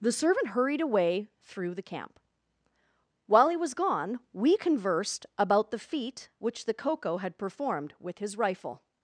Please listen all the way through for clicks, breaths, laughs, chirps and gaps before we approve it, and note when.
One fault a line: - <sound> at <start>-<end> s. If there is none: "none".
none